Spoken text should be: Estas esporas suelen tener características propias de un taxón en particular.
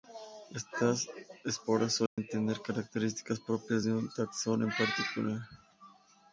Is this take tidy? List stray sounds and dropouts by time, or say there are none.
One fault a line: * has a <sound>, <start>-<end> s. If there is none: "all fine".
* has a dropout, 2.1-2.2 s